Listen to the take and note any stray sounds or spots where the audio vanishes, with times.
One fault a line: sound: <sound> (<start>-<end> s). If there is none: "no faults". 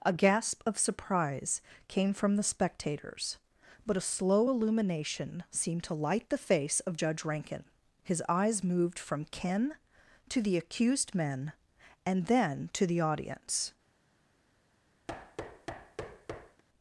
sound: thud (15.1-16.6 s)